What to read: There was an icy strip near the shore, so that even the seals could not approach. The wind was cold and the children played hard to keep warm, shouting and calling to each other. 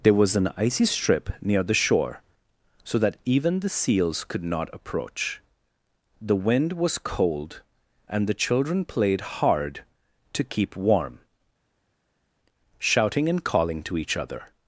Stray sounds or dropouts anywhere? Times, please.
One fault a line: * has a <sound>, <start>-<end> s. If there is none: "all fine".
all fine